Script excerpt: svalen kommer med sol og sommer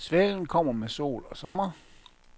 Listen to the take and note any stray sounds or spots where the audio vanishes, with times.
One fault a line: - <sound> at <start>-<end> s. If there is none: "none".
- dropout at 1.4-1.6 s